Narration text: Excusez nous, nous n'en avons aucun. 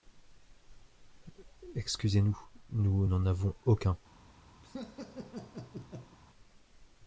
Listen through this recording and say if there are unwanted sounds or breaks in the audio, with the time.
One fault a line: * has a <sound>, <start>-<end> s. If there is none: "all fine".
* has a laugh, 4.6-6.2 s